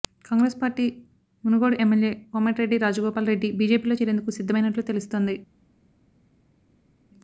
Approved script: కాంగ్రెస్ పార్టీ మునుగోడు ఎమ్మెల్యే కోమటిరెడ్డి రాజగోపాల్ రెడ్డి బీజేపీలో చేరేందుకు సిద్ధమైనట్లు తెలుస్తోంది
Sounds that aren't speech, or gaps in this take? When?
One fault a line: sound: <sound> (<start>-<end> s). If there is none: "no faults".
no faults